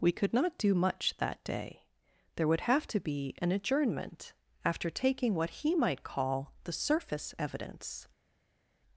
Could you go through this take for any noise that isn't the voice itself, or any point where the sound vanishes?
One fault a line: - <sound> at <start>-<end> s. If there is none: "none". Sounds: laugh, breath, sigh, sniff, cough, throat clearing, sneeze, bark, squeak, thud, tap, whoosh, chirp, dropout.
none